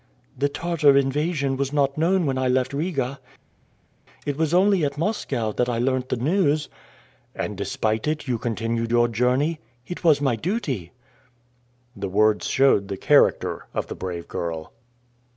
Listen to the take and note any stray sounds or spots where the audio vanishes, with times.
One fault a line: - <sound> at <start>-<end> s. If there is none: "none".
none